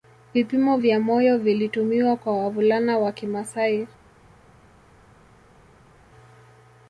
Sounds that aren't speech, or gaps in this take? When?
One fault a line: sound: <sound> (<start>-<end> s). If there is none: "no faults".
no faults